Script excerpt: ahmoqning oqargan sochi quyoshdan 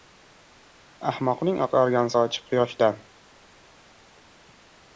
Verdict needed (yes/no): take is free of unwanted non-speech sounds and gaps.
yes